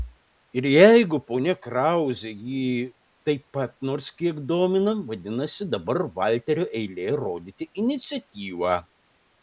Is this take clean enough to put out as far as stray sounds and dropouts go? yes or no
yes